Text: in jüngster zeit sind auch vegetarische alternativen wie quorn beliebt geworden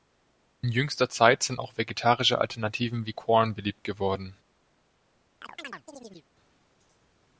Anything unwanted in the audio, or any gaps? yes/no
yes